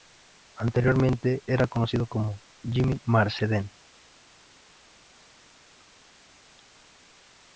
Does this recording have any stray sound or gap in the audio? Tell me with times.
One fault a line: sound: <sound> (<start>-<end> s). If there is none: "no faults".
no faults